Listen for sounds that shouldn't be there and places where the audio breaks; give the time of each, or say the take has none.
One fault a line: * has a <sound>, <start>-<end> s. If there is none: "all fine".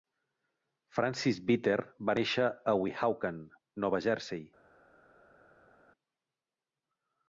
all fine